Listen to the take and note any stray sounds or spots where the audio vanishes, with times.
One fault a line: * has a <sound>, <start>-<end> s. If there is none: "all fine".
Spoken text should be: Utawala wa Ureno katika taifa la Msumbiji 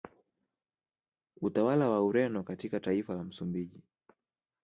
all fine